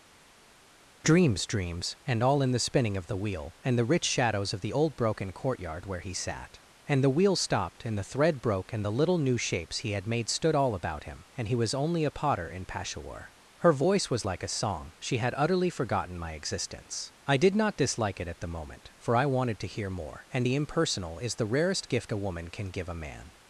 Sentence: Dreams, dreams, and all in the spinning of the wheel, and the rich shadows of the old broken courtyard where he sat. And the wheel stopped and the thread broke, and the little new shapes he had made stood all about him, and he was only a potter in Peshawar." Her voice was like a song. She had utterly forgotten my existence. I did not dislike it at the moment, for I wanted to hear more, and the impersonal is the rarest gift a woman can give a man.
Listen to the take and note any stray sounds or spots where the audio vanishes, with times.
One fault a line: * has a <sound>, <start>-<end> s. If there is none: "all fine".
all fine